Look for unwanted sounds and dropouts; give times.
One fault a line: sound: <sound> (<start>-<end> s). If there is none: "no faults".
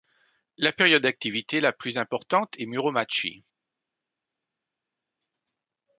no faults